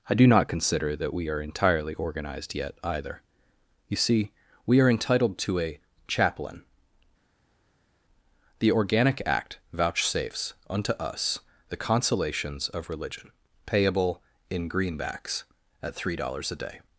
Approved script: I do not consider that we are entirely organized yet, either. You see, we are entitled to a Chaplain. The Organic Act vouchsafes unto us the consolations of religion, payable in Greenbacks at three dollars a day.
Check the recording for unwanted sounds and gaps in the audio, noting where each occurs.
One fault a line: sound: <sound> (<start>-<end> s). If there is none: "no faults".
no faults